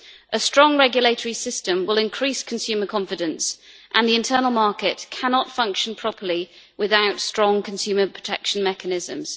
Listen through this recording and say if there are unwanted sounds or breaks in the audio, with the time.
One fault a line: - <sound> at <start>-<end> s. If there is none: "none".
none